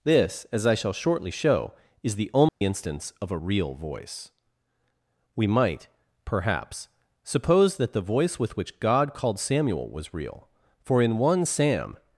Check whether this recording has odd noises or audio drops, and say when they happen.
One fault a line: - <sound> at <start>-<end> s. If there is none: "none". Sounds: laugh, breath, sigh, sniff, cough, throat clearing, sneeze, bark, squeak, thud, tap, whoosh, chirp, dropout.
- dropout at 2.5-2.6 s